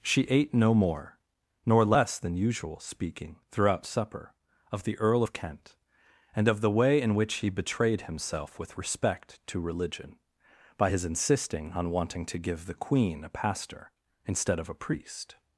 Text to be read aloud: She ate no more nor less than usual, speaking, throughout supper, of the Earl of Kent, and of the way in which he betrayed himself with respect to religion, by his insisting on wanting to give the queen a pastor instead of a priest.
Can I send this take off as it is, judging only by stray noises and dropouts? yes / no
yes